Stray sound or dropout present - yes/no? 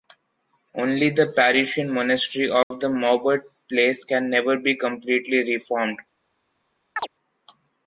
yes